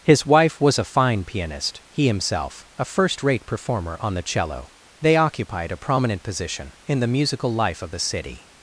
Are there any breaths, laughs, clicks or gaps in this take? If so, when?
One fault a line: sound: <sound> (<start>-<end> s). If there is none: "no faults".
no faults